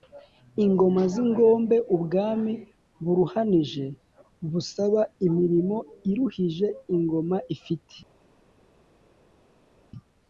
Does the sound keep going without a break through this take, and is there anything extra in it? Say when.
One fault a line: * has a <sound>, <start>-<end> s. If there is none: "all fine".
all fine